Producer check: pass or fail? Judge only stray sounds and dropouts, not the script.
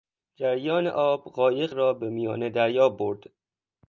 pass